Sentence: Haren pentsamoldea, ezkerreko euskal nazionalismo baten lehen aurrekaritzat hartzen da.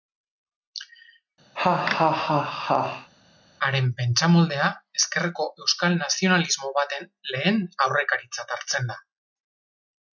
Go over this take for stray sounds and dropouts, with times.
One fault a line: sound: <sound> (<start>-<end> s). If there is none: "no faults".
sound: laugh (1.6-3.1 s)